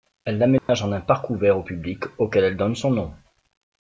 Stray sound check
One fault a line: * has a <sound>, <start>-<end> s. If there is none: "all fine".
* has a dropout, 0.6-0.7 s